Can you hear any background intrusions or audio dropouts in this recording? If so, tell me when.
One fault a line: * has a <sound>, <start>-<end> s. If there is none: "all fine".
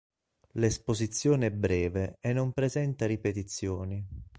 all fine